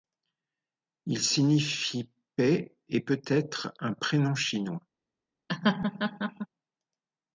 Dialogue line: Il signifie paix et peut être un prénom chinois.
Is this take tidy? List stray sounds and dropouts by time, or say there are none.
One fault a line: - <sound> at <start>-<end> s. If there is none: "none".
- laugh at 5.5-6.5 s